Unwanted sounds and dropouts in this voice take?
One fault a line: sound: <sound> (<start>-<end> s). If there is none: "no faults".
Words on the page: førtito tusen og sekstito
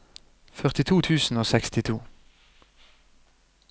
no faults